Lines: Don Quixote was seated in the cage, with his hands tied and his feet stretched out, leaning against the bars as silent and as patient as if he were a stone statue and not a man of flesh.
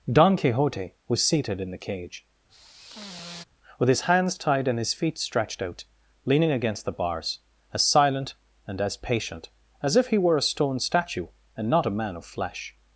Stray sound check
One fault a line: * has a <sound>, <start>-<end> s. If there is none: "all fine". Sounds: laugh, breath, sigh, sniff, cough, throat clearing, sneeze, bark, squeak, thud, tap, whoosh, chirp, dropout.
* has a sigh, 2.5-3.4 s